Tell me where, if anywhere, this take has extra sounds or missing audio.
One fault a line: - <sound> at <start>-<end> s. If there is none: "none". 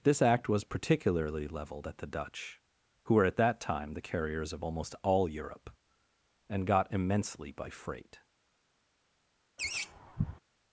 - laugh at 9.6-10.4 s